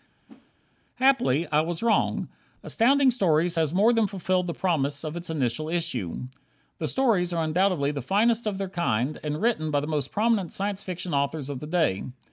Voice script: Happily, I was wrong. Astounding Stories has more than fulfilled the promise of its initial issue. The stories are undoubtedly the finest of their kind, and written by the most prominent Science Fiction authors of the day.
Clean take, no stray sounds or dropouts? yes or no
no